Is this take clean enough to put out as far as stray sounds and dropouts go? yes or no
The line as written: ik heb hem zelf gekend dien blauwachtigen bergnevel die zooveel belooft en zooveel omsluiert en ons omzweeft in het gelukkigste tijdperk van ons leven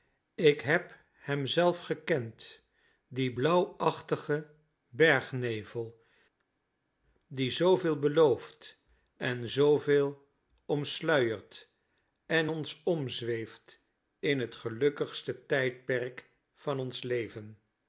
yes